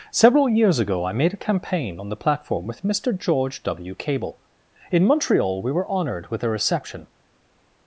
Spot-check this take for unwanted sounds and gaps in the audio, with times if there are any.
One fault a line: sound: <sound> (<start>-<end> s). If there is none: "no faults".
no faults